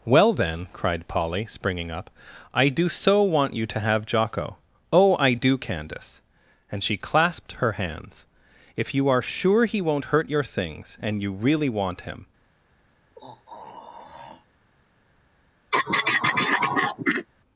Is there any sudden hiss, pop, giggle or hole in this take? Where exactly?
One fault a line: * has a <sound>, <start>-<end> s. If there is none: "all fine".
* has a throat clearing, 13.2-14.5 s
* has a throat clearing, 15.7-17.3 s